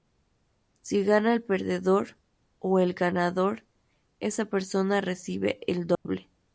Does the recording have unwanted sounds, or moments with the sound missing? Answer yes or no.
yes